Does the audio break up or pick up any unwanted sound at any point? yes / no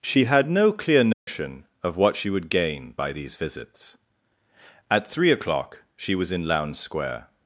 yes